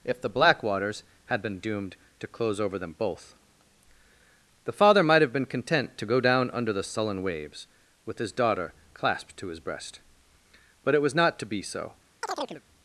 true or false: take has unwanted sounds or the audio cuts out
true